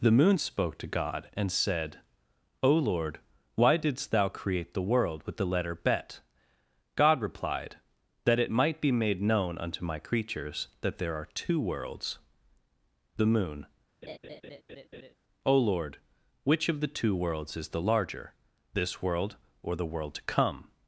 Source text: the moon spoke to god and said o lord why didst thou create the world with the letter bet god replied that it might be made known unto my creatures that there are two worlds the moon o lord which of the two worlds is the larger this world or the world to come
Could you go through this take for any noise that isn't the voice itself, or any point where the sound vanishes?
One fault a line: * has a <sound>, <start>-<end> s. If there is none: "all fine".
* has a laugh, 14.0-15.1 s